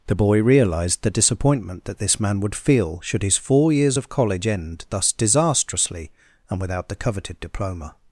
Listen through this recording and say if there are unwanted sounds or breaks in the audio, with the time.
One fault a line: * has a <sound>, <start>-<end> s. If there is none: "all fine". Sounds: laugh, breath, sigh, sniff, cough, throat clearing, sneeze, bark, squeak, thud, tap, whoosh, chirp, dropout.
all fine